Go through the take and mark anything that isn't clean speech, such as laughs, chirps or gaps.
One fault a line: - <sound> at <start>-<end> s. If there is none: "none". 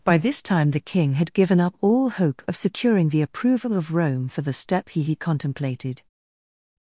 none